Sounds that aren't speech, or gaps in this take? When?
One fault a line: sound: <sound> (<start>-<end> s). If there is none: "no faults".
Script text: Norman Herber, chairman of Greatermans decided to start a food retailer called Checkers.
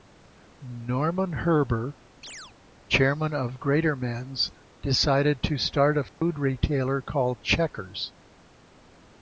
sound: chirp (2.2-2.5 s)
sound: dropout (6.1-6.2 s)